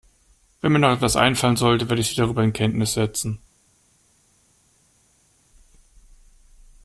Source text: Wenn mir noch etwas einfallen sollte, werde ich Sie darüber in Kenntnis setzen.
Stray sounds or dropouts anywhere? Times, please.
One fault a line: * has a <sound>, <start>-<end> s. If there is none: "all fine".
all fine